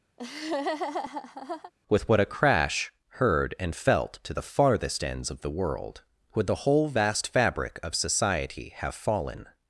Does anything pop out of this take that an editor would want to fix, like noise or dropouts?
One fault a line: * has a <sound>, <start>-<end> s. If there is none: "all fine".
* has a laugh, 0.2-1.7 s